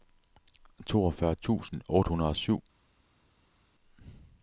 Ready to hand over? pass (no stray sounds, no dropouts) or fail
pass